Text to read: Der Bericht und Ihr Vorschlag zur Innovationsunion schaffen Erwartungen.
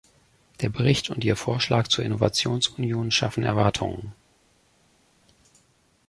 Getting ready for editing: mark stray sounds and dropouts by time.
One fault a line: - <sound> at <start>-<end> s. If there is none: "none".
none